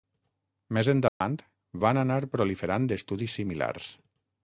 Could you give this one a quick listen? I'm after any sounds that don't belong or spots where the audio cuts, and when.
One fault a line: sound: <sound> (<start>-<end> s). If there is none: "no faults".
sound: dropout (1.1-1.2 s)